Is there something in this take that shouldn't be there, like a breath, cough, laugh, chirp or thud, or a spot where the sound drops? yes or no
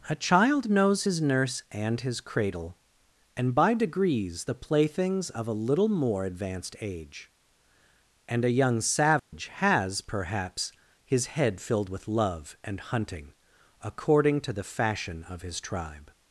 yes